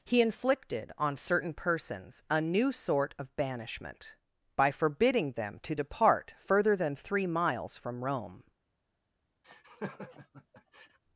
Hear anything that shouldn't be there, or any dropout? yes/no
yes